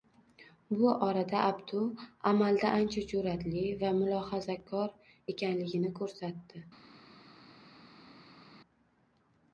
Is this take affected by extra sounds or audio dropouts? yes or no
no